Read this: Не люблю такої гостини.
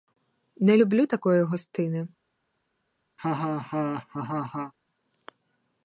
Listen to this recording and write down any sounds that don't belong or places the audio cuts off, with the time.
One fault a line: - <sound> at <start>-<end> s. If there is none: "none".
- laugh at 3.2-4.7 s